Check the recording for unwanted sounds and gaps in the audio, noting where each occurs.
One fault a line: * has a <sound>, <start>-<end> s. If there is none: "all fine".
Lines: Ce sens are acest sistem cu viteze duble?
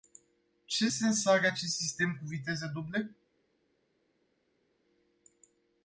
all fine